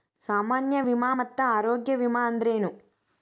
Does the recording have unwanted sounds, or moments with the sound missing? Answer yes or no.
no